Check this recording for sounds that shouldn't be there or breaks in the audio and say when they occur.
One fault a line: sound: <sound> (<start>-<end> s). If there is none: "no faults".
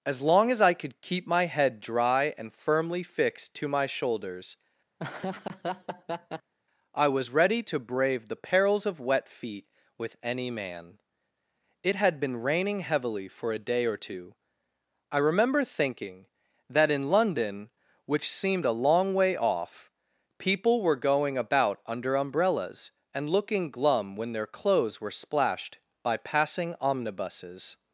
sound: laugh (5.0-6.5 s)